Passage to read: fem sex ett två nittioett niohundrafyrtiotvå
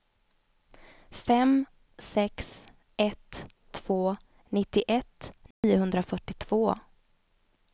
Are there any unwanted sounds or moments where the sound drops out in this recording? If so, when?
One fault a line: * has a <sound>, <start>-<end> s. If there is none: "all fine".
* has a dropout, 5.5-5.6 s